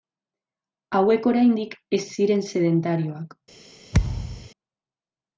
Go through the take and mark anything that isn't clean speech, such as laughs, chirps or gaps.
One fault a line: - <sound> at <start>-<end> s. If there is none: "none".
- thud at 3.9-4.5 s